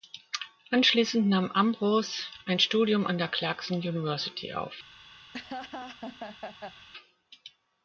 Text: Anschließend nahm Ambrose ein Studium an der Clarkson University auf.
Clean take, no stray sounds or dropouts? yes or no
no